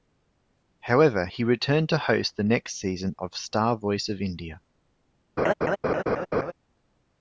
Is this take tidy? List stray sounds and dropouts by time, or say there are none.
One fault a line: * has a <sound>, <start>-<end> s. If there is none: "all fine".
* has a laugh, 5.4-6.5 s